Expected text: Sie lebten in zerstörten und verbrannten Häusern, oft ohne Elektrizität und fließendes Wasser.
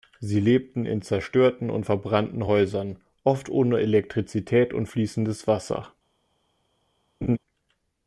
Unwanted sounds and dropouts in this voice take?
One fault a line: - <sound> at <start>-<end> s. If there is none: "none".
- laugh at 7.2-7.4 s